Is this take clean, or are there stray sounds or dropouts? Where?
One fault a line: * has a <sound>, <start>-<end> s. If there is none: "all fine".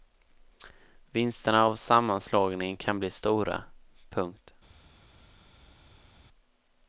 all fine